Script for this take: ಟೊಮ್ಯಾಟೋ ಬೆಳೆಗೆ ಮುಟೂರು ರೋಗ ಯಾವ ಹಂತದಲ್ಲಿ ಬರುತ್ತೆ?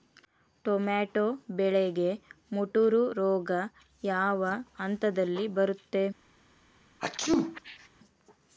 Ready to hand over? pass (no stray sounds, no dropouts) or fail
fail